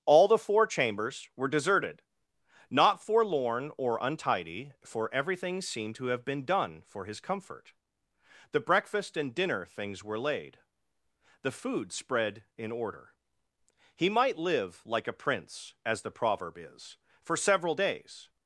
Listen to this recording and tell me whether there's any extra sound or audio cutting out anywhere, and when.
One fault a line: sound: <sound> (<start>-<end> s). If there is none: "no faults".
no faults